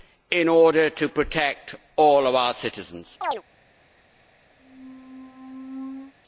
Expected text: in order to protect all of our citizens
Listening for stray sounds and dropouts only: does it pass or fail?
fail